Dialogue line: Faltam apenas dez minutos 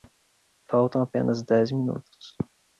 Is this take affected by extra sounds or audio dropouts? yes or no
no